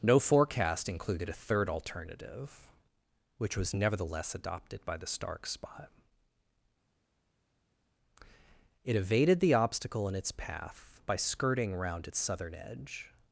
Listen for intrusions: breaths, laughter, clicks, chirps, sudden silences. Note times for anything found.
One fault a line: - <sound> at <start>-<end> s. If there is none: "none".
none